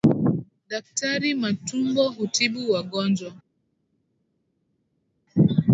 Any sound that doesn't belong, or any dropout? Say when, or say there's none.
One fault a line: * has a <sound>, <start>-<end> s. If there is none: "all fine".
all fine